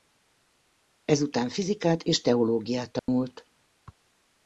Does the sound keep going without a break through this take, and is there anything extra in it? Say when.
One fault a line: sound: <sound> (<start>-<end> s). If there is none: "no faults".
sound: dropout (3.0-3.1 s)